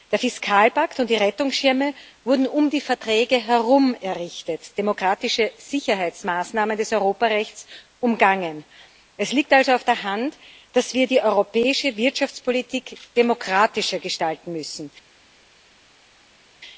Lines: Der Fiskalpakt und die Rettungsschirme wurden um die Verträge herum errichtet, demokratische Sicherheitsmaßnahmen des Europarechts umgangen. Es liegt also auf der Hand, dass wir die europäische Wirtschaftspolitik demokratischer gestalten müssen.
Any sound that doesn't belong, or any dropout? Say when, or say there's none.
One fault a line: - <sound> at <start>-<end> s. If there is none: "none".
none